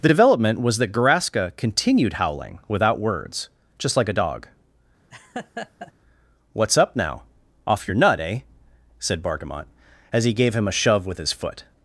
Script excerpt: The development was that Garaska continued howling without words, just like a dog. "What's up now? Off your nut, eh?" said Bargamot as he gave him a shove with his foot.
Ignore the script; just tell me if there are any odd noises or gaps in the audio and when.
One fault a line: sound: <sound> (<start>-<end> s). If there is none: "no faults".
sound: laugh (5.1-5.9 s)